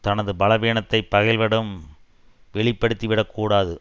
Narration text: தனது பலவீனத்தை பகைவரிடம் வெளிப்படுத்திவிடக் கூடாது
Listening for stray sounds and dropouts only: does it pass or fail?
pass